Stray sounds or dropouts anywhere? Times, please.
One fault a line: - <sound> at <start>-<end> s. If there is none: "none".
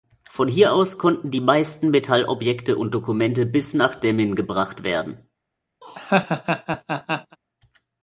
- laugh at 5.8-7.4 s